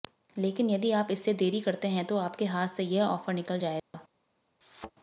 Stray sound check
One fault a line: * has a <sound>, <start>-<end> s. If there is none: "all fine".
* has a dropout, 3.8-3.9 s
* has a thud, 4.6-4.9 s